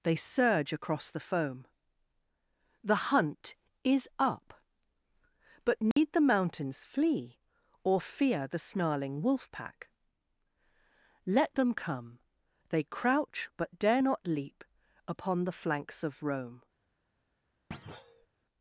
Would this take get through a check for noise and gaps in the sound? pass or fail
fail